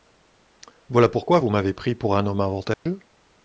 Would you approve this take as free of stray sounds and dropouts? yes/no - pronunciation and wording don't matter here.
no